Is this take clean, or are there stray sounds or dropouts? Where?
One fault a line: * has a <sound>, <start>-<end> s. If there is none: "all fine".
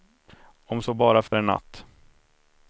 * has a dropout, 1.3-1.3 s